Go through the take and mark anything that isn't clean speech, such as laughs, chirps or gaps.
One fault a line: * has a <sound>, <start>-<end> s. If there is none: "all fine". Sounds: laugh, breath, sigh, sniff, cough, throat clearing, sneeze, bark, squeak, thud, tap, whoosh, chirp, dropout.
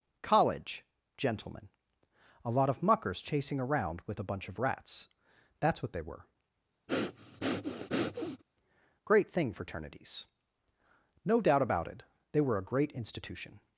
* has a breath, 6.9-8.4 s